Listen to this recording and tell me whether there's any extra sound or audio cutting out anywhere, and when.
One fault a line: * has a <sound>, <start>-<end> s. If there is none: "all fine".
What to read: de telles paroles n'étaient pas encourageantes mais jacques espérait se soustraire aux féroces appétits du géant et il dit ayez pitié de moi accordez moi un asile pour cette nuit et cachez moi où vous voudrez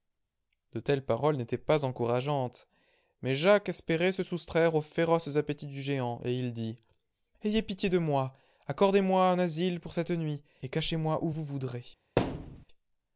* has a thud, 12.2-12.7 s